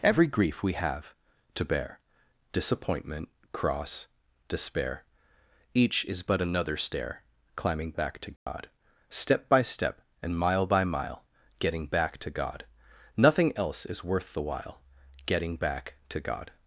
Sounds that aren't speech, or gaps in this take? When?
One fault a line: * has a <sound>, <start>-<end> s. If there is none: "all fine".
* has a dropout, 8.4-8.5 s